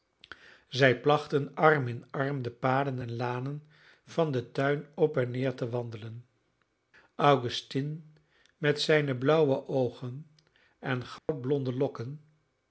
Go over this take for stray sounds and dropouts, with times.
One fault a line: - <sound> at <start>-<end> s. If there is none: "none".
- dropout at 11.2-11.3 s